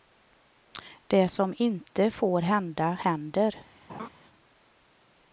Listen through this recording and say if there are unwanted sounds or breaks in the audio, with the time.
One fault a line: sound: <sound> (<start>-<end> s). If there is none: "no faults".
sound: laugh (3.9-4.1 s)